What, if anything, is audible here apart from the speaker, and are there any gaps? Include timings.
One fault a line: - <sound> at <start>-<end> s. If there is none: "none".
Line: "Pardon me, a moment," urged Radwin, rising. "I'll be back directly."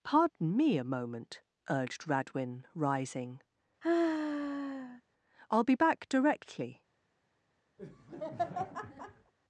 - sigh at 3.8-5.0 s
- laugh at 7.8-9.3 s